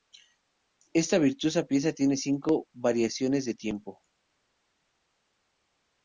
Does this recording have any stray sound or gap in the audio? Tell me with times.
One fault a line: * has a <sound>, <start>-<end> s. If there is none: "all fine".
all fine